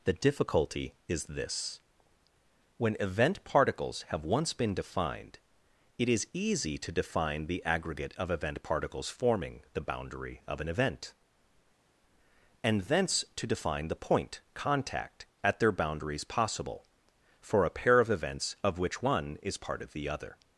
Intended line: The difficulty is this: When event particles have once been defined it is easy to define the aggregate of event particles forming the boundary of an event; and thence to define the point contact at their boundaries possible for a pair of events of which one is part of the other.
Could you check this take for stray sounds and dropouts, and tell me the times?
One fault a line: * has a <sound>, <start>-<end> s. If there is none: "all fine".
all fine